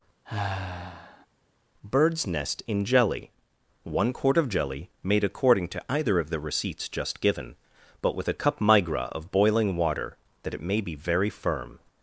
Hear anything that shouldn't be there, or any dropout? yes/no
yes